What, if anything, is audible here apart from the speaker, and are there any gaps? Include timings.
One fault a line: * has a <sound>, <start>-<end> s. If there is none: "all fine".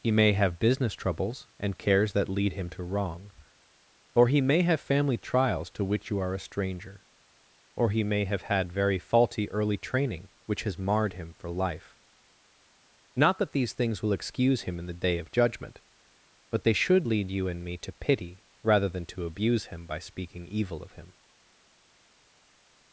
all fine